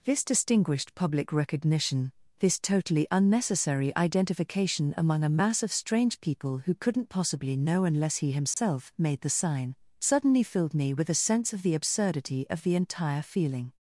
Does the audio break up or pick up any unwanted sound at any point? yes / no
yes